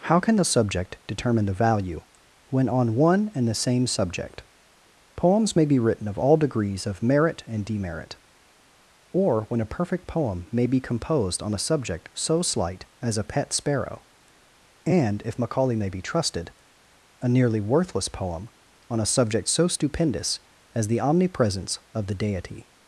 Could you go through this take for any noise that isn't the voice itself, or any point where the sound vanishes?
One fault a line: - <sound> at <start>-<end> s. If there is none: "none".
none